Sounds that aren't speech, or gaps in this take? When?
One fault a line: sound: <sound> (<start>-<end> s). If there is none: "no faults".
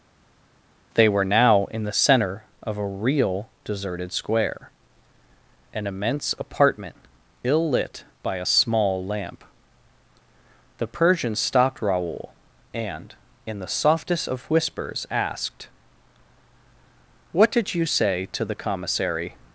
no faults